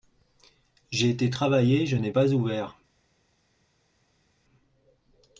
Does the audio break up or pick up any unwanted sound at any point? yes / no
no